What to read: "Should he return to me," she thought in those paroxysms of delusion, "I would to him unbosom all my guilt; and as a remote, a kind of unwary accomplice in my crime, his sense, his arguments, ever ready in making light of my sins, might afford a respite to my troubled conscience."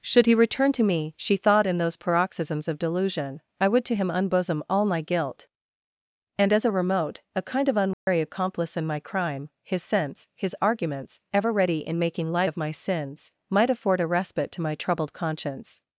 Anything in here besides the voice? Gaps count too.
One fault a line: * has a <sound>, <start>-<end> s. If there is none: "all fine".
* has a dropout, 7.9-8.1 s